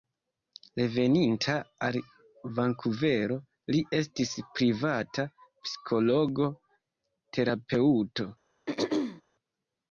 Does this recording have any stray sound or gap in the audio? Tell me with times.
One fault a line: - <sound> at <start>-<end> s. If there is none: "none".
- throat clearing at 8.7-9.2 s